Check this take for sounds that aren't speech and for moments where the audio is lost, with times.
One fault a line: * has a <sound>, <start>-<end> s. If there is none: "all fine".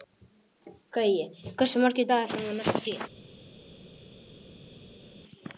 all fine